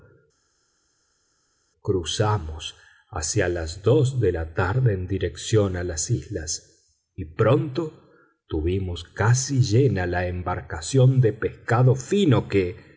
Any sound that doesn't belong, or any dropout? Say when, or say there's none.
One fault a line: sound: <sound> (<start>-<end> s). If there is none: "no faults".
no faults